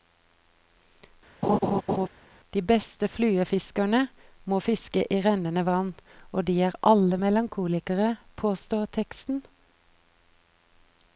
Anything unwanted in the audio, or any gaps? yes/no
yes